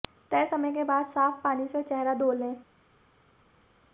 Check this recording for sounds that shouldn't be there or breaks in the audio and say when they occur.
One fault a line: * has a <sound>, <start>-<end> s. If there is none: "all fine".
all fine